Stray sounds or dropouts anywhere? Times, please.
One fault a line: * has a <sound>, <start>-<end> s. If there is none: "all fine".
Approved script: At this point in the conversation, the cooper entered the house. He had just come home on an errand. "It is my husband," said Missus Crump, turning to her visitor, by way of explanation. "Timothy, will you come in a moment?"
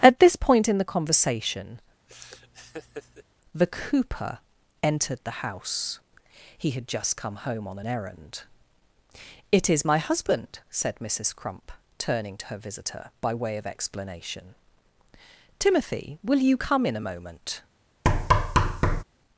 * has a laugh, 2.1-3.2 s
* has a thud, 18.0-19.0 s